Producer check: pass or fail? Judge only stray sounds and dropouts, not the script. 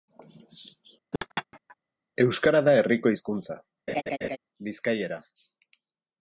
fail